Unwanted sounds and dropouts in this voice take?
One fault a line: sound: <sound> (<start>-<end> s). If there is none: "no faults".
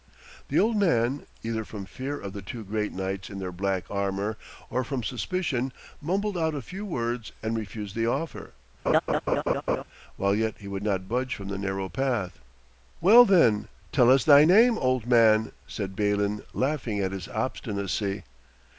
sound: laugh (8.9-9.8 s)